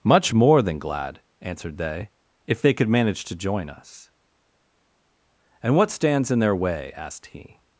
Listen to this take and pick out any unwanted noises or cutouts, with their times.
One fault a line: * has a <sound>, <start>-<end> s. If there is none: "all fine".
all fine